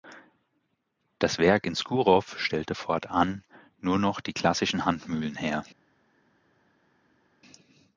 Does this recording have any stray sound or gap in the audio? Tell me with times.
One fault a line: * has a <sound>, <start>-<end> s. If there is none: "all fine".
all fine